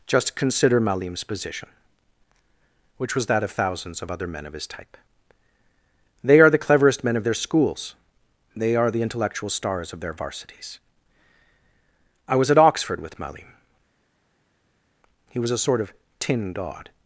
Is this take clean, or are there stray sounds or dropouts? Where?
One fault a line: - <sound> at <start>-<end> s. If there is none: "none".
none